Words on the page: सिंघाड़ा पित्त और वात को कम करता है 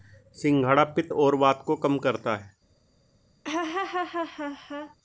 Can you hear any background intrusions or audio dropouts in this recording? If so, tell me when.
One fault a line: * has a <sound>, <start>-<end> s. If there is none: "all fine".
* has a laugh, 3.4-5.0 s